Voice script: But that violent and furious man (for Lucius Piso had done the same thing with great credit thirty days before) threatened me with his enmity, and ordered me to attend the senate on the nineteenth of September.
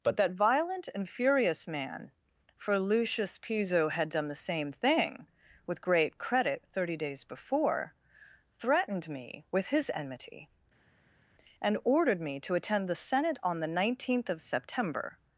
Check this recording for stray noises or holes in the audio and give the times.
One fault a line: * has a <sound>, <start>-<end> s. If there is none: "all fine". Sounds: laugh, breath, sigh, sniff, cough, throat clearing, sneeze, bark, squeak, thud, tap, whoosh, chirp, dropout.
all fine